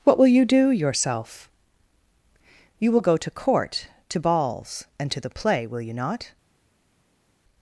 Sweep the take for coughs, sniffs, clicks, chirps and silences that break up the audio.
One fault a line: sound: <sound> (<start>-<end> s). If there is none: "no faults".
no faults